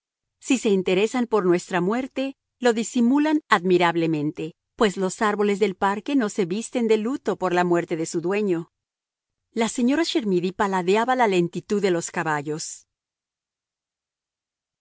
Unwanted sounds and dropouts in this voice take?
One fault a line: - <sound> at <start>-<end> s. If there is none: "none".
none